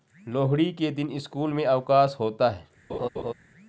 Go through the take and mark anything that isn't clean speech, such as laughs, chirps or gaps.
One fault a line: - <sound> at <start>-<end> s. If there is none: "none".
- laugh at 2.9-3.3 s